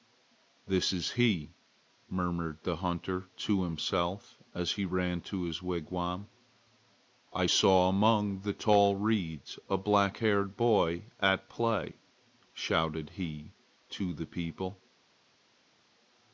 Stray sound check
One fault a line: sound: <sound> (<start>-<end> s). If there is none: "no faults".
no faults